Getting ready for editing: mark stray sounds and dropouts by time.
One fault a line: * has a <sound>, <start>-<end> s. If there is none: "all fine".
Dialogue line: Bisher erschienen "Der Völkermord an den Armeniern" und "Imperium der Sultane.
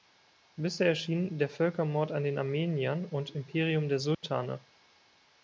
* has a dropout, 4.1-4.2 s